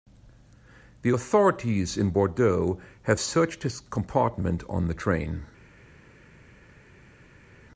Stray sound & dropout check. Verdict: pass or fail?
pass